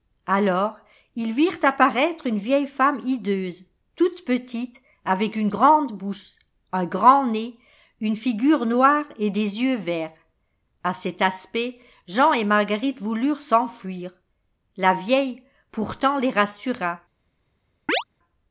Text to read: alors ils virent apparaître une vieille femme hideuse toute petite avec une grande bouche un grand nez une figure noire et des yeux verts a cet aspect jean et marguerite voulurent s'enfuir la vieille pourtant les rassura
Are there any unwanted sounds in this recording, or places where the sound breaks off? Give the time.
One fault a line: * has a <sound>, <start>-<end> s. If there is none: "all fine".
* has a chirp, 17.9-18.0 s